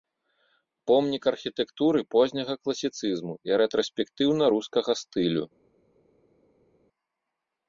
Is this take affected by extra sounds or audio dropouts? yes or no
no